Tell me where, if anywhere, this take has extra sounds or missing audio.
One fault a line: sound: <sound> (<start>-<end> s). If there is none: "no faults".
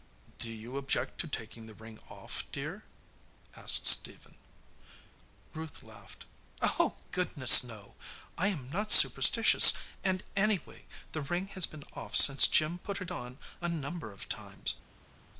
no faults